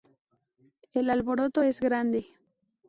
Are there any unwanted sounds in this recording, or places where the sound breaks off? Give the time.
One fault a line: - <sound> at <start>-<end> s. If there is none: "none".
none